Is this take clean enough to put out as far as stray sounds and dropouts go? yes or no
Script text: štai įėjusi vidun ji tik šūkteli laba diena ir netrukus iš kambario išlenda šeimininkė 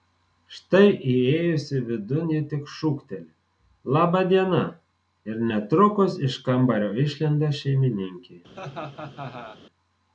no